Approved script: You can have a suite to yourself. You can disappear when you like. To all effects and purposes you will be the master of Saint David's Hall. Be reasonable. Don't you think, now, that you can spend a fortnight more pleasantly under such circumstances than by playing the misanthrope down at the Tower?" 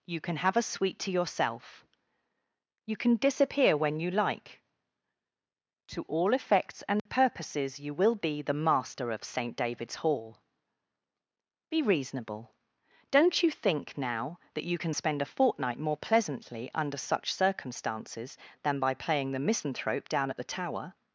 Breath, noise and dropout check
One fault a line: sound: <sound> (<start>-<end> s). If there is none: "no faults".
sound: dropout (7.0-7.1 s)